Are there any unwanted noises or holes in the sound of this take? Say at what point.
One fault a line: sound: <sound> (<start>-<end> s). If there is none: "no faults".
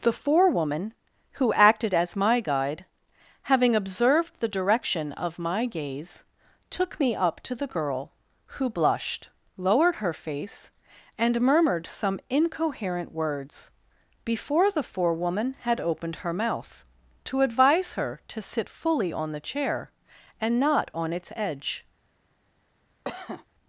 sound: cough (23.0-23.5 s)